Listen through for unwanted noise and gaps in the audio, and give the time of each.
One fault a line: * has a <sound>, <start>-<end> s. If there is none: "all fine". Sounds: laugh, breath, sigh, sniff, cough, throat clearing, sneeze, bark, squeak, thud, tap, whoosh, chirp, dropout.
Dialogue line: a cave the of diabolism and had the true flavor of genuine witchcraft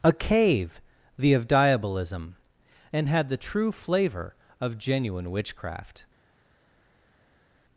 all fine